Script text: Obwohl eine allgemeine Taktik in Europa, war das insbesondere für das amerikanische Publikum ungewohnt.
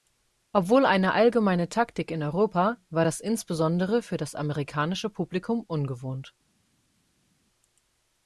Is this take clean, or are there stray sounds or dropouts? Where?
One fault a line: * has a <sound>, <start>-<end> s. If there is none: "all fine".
all fine